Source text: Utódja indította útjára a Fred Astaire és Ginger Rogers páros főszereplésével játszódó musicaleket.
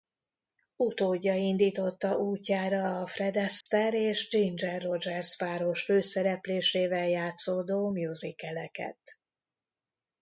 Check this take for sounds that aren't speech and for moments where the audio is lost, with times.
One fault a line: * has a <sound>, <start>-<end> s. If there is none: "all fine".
* has a dropout, 3.6-3.7 s